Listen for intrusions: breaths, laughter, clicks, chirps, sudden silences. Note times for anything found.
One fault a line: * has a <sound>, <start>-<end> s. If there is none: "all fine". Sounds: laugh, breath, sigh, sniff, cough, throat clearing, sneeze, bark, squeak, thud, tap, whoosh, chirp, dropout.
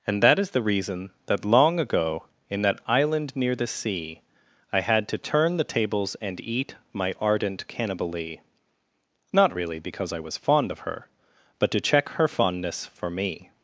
all fine